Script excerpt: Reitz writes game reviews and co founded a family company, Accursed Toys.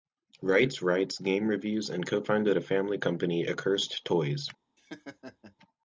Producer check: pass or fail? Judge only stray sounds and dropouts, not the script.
fail